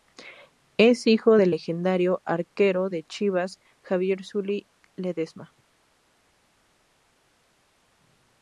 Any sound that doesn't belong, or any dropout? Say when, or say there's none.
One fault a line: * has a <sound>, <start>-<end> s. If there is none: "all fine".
all fine